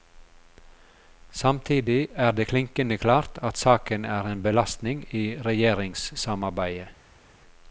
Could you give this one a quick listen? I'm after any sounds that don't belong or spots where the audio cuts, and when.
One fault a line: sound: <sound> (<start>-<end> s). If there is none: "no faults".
no faults